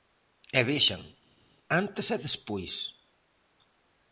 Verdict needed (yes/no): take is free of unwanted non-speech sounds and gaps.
yes